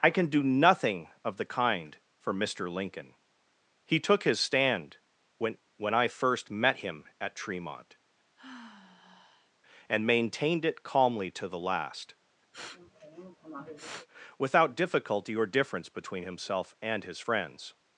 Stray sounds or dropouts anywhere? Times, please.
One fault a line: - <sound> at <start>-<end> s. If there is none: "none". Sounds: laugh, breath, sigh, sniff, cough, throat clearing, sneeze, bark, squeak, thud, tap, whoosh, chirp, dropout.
- sigh at 8.4-9.5 s
- sniff at 12.5-14.1 s